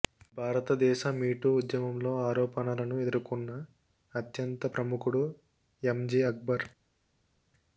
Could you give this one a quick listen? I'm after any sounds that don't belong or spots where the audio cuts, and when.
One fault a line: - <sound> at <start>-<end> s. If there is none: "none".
none